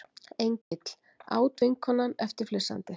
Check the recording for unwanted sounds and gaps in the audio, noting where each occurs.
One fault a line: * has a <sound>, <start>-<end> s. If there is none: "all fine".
* has a dropout, 0.6-0.7 s